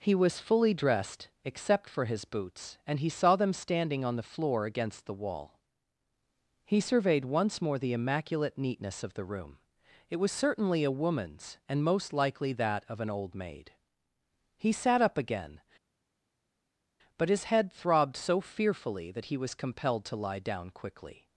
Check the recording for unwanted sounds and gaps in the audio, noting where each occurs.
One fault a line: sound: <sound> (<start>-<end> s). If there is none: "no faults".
no faults